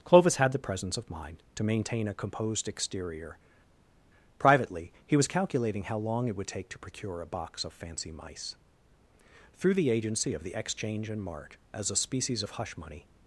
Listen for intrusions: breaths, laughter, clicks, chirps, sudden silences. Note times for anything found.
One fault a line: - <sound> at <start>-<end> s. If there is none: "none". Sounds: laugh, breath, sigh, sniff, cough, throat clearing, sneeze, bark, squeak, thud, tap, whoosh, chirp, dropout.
none